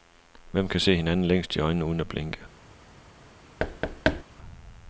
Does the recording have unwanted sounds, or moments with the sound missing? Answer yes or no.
yes